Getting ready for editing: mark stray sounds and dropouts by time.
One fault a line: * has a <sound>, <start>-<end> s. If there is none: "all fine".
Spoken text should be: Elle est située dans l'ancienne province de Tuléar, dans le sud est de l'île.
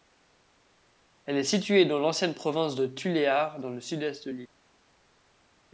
all fine